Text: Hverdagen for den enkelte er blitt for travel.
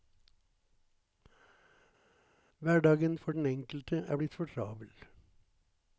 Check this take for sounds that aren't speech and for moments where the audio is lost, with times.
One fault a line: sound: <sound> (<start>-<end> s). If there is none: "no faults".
no faults